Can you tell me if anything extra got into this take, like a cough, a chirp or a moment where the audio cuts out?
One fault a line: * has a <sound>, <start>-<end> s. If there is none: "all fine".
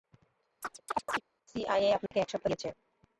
* has a chirp, 0.6-1.2 s
* has a dropout, 2.1-2.1 s